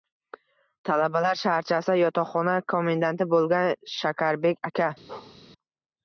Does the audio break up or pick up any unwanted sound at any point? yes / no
yes